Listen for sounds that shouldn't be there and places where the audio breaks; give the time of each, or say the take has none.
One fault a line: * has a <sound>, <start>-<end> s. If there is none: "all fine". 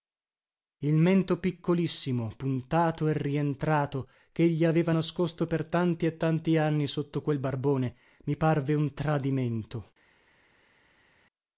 all fine